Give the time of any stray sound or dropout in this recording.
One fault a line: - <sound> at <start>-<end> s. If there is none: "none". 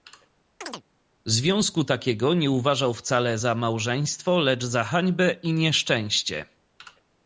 - chirp at 0.6-0.8 s